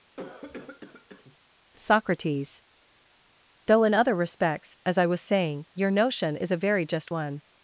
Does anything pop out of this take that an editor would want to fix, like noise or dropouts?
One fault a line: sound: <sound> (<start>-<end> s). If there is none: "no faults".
sound: cough (0.1-1.4 s)